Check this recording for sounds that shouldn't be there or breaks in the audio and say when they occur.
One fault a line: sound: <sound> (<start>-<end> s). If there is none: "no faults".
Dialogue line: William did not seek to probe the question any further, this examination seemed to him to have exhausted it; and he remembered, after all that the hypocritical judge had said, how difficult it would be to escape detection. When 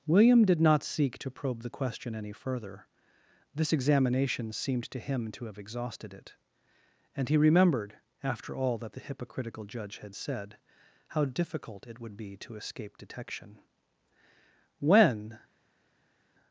no faults